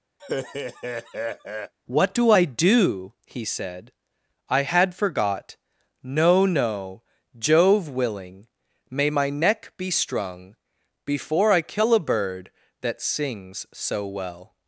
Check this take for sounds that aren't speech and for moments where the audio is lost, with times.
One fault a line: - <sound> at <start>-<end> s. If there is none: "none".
- laugh at 0.2-1.7 s